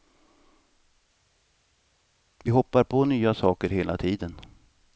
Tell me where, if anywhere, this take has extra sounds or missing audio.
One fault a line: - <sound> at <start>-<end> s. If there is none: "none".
none